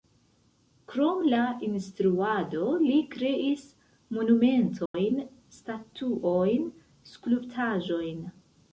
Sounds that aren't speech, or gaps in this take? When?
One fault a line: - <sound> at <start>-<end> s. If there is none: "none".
- dropout at 4.9-4.9 s